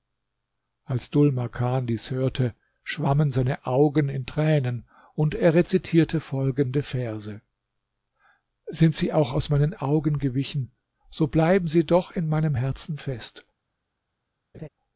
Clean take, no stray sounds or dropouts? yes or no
no